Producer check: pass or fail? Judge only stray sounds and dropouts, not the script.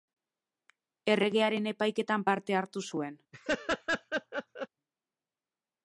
fail